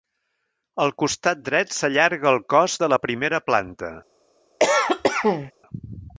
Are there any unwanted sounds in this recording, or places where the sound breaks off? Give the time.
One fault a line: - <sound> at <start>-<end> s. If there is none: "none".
- cough at 4.6-5.5 s